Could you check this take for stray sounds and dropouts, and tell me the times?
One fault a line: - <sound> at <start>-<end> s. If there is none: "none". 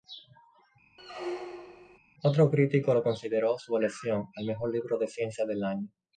- squeak at 1.0-2.0 s